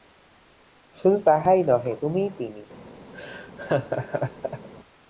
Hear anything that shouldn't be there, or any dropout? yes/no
yes